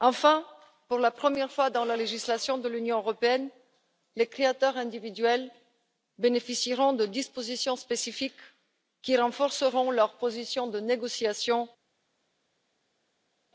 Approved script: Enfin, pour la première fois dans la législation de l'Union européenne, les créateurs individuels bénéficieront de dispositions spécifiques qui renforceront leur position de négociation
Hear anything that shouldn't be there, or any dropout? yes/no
no